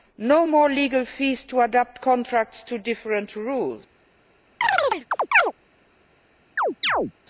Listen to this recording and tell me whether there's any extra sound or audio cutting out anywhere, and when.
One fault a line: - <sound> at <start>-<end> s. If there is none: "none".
- chirp at 4.6-5.5 s
- chirp at 6.6-7.1 s